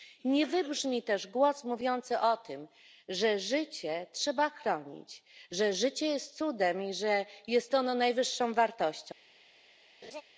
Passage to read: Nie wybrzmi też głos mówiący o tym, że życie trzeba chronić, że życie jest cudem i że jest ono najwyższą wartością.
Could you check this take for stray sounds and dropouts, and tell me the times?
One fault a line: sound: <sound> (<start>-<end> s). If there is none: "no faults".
sound: laugh (10.0-10.2 s)